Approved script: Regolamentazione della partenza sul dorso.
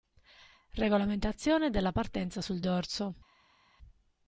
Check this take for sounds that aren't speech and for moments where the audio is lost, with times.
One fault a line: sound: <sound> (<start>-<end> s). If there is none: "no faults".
no faults